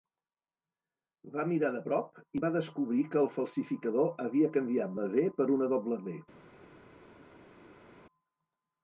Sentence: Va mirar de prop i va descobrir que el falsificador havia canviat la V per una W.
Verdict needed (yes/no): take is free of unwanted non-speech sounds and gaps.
yes